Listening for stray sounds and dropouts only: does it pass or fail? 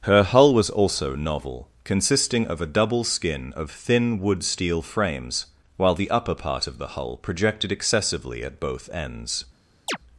fail